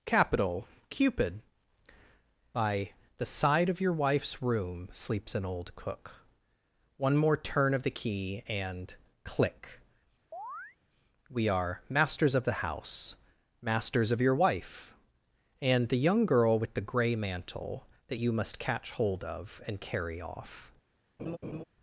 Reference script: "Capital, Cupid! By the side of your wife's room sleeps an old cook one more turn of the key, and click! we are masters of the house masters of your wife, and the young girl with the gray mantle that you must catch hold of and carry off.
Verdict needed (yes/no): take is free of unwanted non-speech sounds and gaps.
no